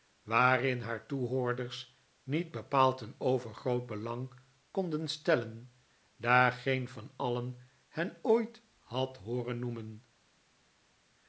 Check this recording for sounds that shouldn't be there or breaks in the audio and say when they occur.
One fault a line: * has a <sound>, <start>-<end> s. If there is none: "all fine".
all fine